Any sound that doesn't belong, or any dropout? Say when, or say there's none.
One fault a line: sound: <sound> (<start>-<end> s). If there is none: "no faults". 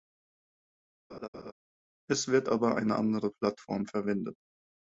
sound: laugh (1.1-1.5 s)